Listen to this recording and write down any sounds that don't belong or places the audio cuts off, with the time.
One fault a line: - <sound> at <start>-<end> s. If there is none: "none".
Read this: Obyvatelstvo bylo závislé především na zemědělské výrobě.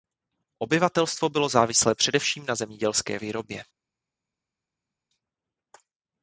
none